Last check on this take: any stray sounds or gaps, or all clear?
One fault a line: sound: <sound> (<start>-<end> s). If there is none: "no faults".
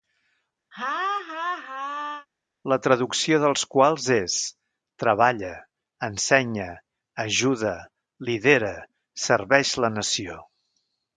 sound: laugh (0.7-2.3 s)